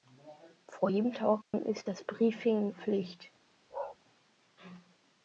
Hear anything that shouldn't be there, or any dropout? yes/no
yes